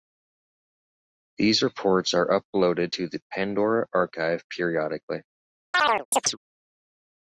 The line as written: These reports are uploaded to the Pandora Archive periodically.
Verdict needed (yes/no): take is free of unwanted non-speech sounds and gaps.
no